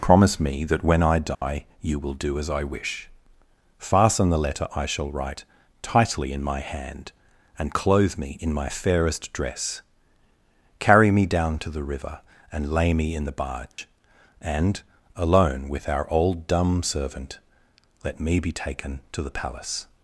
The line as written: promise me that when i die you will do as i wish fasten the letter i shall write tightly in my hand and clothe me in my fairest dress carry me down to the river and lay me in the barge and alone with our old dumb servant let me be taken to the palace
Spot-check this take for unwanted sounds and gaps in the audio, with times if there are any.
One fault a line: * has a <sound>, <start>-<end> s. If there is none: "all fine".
* has a dropout, 1.3-1.4 s
* has a dropout, 13.7-13.8 s